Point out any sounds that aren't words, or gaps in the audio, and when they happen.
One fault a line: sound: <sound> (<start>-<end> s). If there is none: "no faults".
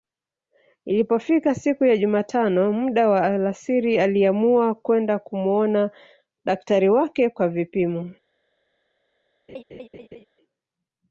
sound: laugh (9.5-10.2 s)